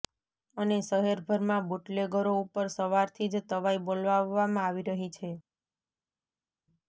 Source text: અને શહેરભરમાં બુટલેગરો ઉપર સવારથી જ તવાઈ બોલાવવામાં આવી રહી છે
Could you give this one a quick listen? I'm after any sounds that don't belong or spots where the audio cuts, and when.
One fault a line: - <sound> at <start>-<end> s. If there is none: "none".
none